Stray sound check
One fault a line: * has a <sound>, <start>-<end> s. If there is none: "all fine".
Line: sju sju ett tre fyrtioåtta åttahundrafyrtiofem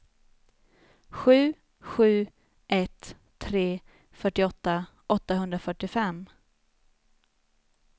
all fine